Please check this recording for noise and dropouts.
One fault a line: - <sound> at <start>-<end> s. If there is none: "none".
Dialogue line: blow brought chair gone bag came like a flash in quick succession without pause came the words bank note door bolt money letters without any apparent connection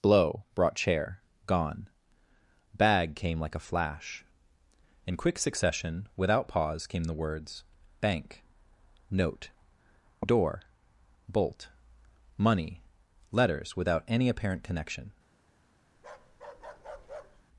- bark at 16.0-17.4 s